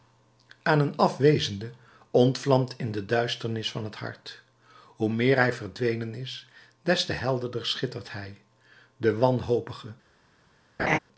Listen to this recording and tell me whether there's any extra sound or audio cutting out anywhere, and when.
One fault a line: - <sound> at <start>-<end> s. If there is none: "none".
- laugh at 10.8-11.0 s